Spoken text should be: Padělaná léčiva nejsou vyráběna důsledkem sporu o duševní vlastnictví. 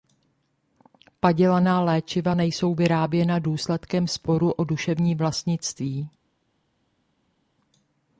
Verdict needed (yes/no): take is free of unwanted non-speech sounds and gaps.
yes